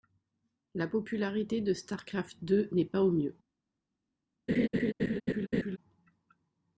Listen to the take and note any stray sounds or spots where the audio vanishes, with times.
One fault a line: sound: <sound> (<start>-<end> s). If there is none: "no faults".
sound: laugh (4.5-5.8 s)